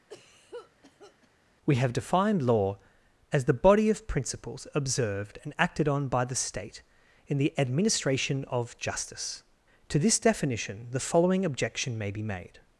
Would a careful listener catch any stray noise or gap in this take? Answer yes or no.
yes